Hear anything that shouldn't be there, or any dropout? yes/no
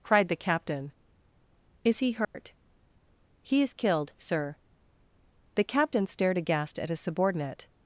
yes